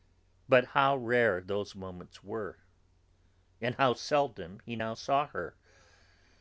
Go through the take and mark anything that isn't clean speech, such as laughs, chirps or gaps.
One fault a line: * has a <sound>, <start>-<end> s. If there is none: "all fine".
all fine